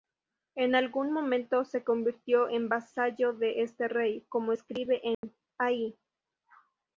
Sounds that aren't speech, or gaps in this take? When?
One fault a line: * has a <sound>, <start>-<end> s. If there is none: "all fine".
* has a dropout, 5.1-5.2 s